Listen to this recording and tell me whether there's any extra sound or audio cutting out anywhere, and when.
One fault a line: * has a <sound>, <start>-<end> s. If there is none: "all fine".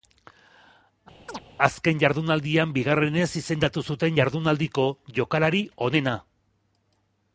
* has a chirp, 1.3-1.4 s